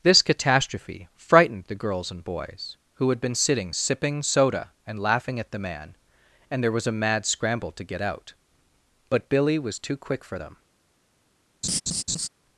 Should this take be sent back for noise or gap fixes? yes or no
yes